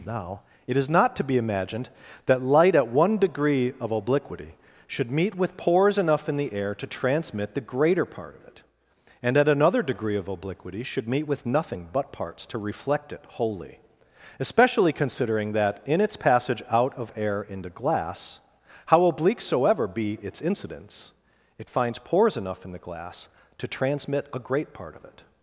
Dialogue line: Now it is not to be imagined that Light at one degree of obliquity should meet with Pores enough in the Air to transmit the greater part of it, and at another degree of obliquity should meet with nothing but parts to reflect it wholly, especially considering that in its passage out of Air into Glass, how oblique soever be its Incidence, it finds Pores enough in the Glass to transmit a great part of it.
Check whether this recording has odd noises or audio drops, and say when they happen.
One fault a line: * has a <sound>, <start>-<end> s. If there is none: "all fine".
all fine